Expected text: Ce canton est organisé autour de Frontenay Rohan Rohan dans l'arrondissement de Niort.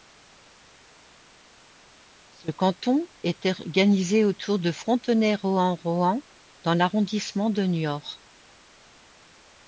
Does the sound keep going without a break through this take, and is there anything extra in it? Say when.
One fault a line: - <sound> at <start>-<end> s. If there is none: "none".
none